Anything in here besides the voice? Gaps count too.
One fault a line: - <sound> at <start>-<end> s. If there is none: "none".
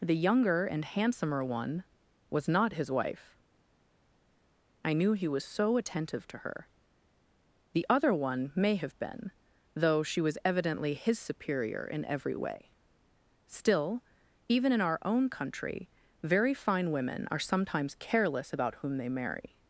none